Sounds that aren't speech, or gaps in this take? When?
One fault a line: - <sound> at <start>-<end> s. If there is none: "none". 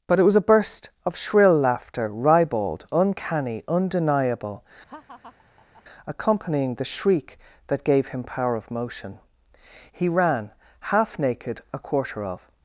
- laugh at 4.9-5.8 s